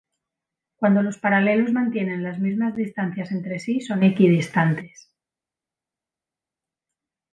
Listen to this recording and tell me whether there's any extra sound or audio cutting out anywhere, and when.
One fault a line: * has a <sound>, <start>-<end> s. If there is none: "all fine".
all fine